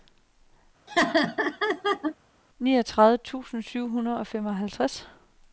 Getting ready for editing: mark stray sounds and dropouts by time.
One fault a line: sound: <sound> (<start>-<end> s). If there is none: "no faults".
sound: laugh (0.9-2.2 s)